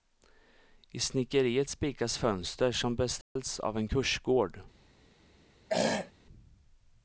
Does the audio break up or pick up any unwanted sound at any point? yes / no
yes